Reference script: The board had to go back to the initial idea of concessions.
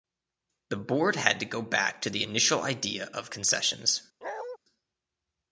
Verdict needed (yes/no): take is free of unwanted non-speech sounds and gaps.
no